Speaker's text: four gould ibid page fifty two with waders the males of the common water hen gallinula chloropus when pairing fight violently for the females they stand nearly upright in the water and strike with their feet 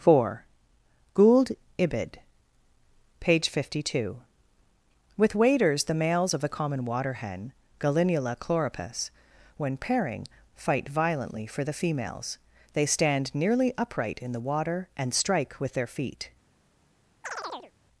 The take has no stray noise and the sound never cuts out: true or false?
false